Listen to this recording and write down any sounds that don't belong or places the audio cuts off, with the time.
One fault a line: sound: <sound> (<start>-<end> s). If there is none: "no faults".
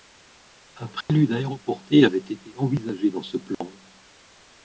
sound: dropout (1.0-1.1 s)
sound: dropout (3.5-3.6 s)